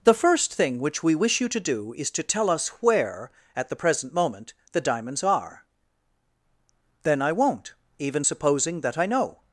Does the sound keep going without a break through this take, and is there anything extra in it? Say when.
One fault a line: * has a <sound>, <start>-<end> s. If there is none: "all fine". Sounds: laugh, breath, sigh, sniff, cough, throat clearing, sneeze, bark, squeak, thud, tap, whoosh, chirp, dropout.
all fine